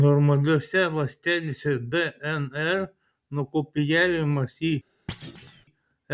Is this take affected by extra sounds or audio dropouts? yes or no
yes